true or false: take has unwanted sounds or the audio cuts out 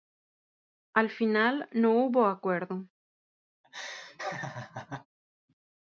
true